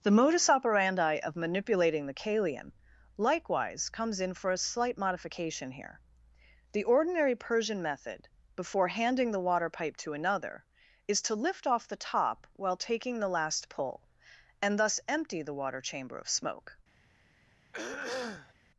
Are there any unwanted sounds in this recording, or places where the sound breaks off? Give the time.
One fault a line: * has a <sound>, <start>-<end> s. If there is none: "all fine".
* has a throat clearing, 17.7-18.5 s